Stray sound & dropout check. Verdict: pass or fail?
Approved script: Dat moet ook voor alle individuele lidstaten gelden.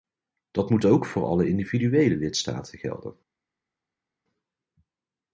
pass